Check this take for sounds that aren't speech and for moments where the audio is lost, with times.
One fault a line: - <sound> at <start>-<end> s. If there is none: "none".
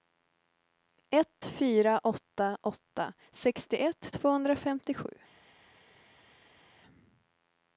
none